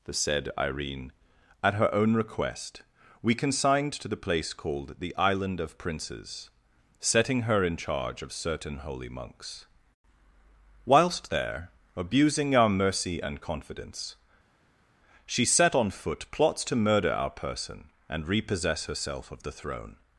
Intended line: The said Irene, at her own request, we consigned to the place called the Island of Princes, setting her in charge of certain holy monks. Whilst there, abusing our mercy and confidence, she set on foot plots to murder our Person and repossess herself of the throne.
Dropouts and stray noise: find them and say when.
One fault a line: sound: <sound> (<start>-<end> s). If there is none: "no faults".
no faults